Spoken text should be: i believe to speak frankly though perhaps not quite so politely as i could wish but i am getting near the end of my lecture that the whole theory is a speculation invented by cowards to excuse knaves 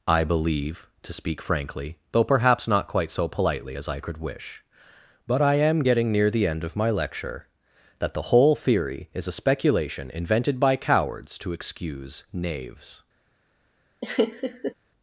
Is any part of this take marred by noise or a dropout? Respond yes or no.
yes